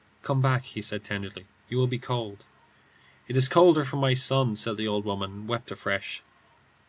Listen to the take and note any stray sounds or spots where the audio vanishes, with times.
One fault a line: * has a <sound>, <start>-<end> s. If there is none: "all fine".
all fine